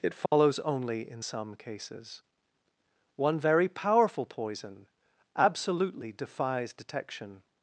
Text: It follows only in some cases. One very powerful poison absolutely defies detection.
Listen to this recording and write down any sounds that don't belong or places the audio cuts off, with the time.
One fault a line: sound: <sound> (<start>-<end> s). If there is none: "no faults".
sound: dropout (0.3-0.3 s)